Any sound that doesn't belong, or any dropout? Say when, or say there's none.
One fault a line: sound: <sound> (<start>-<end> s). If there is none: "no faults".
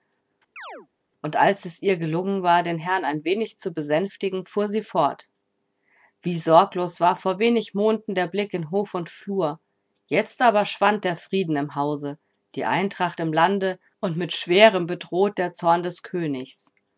sound: chirp (0.6-0.9 s)